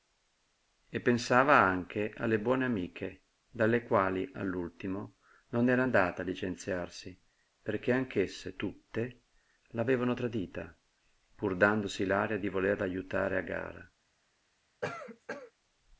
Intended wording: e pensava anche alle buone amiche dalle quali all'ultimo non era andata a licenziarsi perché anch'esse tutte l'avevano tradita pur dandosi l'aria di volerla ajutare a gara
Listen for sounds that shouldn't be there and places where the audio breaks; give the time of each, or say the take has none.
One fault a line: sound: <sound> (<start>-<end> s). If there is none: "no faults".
sound: cough (14.8-15.5 s)